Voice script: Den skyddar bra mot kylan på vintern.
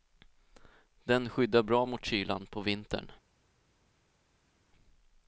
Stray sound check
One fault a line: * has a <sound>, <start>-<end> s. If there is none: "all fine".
all fine